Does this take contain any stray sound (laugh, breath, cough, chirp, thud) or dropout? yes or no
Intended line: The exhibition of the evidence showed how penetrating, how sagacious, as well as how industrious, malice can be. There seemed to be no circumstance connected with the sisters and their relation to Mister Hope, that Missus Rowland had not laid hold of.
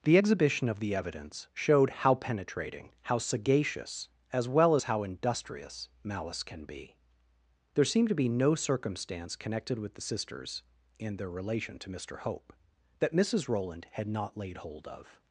no